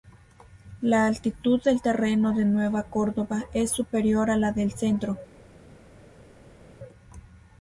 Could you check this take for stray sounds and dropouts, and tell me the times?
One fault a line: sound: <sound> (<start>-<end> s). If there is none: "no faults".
no faults